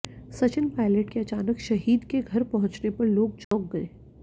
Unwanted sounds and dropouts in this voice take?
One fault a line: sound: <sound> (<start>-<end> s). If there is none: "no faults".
sound: dropout (3.4-3.5 s)